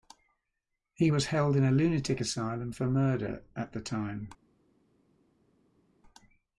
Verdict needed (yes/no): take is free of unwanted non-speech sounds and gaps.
yes